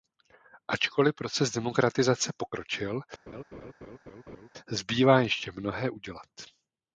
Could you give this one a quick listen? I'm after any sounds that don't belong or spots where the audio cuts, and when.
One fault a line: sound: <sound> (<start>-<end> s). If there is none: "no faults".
sound: laugh (3.3-4.5 s)